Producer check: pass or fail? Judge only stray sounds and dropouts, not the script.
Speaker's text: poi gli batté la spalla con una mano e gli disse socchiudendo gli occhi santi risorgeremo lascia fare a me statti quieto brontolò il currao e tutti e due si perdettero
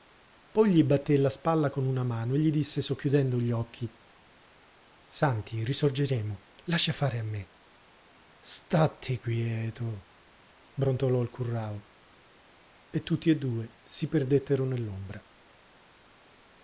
pass